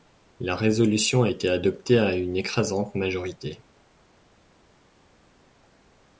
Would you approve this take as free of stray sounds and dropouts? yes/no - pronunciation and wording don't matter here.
yes